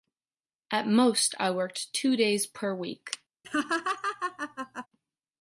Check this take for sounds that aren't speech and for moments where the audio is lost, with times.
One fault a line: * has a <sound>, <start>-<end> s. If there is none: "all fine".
* has a laugh, 3.4-4.9 s